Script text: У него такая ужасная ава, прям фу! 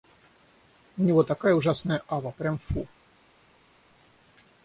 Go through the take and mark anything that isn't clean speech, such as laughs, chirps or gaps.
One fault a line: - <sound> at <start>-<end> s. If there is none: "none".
none